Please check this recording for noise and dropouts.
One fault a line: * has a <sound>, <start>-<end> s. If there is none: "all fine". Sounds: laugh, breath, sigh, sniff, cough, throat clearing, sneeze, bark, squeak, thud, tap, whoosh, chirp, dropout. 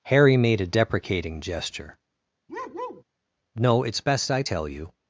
* has a bark, 2.5-3.0 s